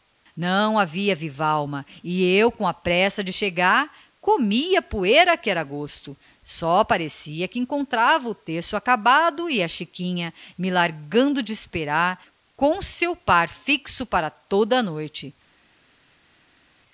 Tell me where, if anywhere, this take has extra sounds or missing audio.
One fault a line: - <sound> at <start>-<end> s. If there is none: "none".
none